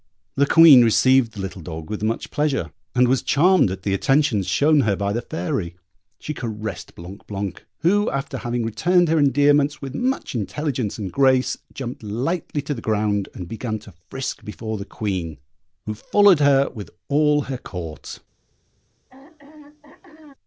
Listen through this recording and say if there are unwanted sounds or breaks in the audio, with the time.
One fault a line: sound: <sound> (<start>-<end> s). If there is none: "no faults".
sound: throat clearing (19.1-20.3 s)